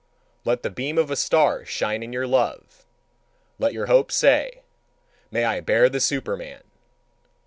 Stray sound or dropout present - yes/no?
no